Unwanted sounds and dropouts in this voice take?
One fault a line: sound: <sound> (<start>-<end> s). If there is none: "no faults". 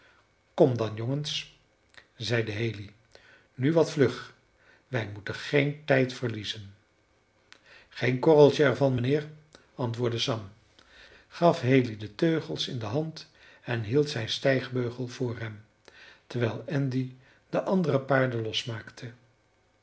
no faults